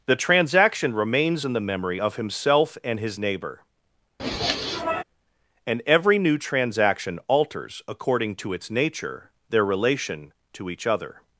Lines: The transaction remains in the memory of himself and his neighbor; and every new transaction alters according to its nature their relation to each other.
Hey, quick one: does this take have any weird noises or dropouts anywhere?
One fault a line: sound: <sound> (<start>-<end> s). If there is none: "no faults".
sound: sniff (4.2-5.0 s)